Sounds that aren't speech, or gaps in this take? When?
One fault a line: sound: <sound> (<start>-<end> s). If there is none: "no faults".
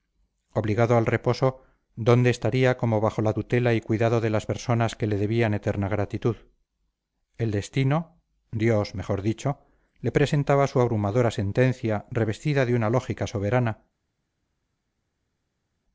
no faults